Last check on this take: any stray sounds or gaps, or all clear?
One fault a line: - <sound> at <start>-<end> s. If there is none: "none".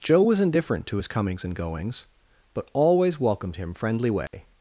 - dropout at 4.3-4.3 s